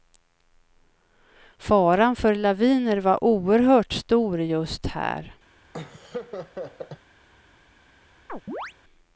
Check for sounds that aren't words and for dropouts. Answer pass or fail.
fail